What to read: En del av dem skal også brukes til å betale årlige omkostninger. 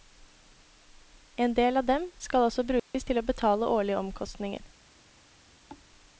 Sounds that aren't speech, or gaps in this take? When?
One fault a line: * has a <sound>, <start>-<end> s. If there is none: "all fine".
* has a dropout, 2.8-2.9 s
* has a thud, 5.7-5.9 s